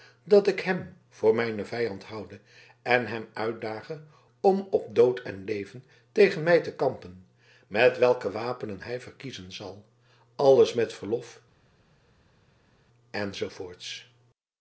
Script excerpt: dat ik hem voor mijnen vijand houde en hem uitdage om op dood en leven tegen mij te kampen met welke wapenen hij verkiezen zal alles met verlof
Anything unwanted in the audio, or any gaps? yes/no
no